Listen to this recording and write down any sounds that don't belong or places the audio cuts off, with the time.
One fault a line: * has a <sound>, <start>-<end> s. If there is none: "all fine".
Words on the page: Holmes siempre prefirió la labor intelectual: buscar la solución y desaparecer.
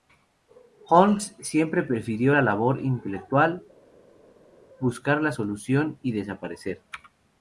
all fine